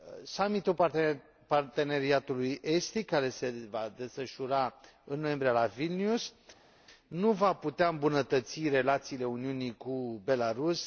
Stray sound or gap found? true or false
false